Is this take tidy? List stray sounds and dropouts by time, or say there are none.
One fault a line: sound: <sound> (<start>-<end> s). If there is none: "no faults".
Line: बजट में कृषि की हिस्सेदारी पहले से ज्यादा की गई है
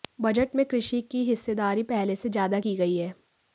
no faults